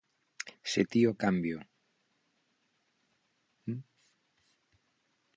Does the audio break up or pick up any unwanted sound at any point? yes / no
no